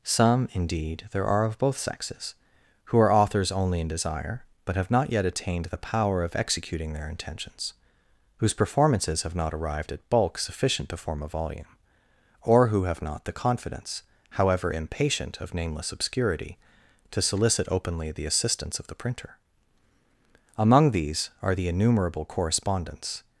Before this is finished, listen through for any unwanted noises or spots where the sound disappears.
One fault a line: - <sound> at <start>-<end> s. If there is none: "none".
none